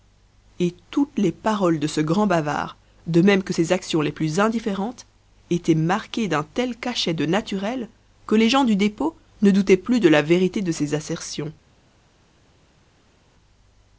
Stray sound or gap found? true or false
false